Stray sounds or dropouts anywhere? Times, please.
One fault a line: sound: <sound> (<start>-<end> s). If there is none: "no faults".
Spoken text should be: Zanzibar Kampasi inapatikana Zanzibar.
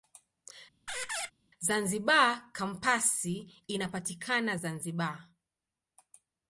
sound: squeak (0.9-1.3 s)